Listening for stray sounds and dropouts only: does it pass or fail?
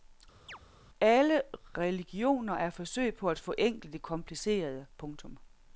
fail